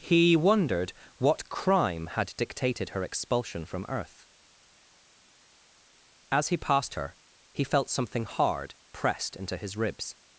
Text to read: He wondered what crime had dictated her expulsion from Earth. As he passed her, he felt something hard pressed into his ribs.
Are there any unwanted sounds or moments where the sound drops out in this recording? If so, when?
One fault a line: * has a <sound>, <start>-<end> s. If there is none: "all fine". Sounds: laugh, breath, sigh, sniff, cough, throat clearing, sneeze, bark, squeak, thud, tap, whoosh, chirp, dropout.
all fine